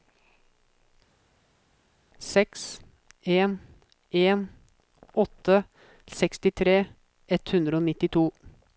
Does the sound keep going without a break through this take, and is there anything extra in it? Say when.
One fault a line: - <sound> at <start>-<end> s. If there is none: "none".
none